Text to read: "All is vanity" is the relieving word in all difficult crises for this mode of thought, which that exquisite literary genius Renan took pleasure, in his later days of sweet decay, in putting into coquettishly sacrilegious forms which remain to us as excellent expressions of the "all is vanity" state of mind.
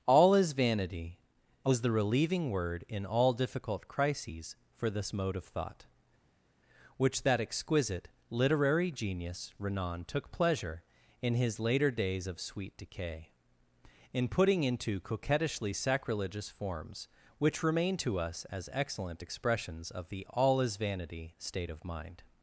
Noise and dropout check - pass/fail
pass